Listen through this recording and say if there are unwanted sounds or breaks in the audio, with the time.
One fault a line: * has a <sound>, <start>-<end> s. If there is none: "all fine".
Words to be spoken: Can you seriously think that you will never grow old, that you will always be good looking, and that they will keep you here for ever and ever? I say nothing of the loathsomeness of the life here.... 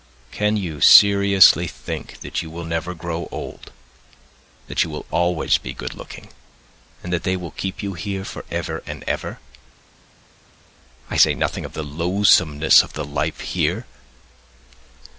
all fine